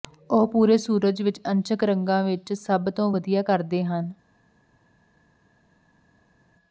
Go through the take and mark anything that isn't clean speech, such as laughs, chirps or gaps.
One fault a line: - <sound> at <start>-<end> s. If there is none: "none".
none